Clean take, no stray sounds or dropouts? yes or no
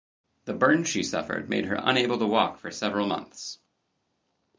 yes